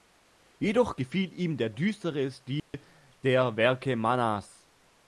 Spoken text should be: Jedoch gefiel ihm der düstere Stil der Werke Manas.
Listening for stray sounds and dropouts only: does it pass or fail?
fail